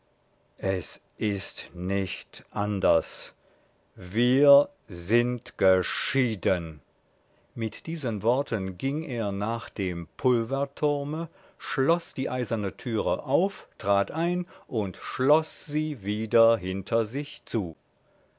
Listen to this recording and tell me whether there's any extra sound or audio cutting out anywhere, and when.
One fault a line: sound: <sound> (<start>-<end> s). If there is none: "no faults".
no faults